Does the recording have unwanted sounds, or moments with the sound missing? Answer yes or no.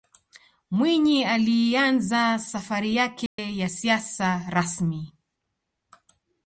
yes